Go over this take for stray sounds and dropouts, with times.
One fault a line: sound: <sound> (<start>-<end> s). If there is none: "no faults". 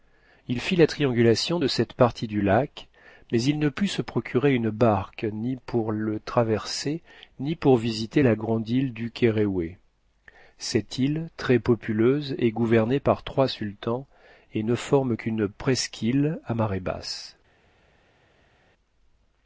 no faults